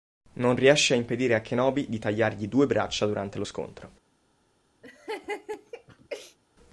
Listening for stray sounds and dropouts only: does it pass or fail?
fail